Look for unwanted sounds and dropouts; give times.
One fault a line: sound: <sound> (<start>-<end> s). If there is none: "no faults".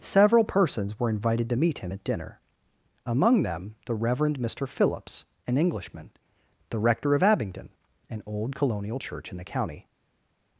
no faults